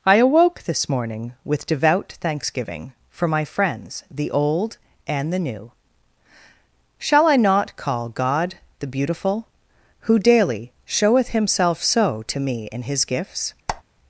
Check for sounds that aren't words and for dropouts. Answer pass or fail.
fail